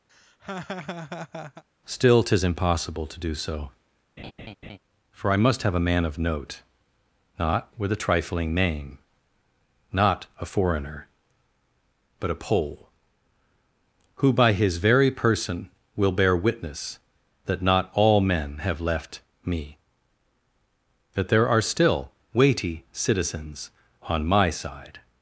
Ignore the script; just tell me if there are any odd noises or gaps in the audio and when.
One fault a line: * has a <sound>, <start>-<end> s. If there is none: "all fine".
* has a laugh, 0.1-1.6 s
* has a laugh, 4.2-4.8 s